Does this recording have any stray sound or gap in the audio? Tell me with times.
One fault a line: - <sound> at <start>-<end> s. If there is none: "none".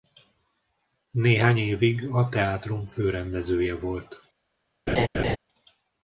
- laugh at 4.9-5.4 s